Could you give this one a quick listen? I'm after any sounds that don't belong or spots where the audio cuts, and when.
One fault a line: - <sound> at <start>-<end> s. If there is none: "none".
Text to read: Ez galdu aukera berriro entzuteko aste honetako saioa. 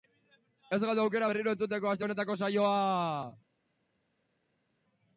none